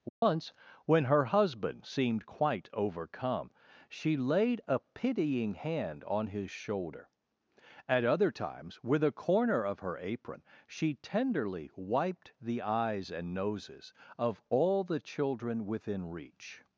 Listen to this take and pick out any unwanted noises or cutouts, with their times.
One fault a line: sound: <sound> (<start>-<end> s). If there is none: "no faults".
sound: dropout (0.1-0.2 s)